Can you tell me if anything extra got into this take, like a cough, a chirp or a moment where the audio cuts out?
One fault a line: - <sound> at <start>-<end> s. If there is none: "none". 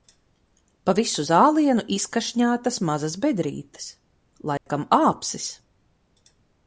- dropout at 4.6-4.7 s